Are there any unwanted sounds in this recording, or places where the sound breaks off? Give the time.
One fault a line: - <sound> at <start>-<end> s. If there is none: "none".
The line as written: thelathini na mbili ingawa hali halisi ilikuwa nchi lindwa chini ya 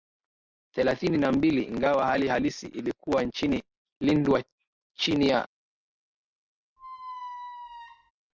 - squeak at 6.8-8.1 s